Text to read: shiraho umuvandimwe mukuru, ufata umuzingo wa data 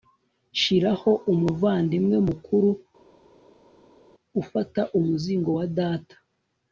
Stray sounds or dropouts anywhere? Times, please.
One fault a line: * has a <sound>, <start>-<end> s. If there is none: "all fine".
all fine